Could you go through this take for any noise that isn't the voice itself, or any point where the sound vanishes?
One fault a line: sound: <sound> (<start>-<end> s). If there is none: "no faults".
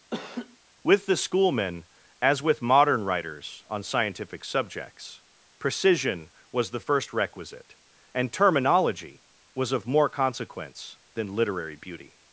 sound: laugh (0.1-0.6 s)